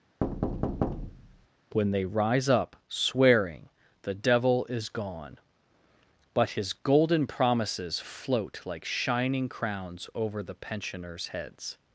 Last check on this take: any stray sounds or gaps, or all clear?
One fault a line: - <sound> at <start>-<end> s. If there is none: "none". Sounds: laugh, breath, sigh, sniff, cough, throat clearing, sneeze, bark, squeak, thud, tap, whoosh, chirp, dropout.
- thud at 0.2-1.5 s